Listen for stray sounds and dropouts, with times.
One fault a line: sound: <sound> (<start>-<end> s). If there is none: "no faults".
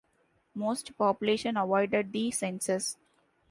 no faults